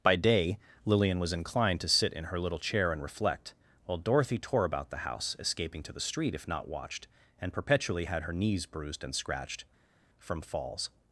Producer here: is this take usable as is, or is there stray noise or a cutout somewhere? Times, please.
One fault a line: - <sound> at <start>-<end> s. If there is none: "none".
none